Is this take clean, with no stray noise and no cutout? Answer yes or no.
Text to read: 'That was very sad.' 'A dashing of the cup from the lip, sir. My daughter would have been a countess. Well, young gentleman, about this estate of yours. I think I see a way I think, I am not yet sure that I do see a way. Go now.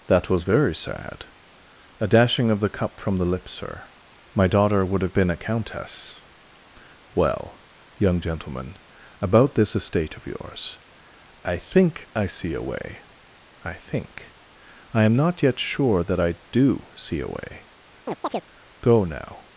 no